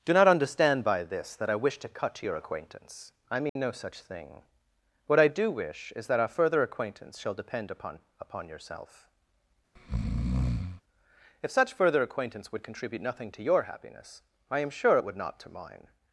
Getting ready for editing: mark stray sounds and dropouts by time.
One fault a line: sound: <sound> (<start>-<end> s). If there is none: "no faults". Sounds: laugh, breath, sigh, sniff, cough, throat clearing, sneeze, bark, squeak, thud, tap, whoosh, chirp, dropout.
sound: dropout (3.5-3.6 s)
sound: breath (9.8-10.8 s)